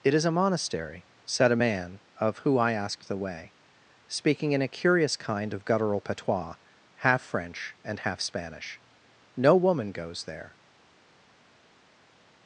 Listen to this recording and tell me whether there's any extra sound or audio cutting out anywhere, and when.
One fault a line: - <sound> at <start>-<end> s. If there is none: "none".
none